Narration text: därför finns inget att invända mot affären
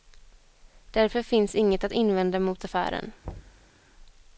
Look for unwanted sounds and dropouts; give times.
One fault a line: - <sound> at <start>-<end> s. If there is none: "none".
- thud at 3.2-3.7 s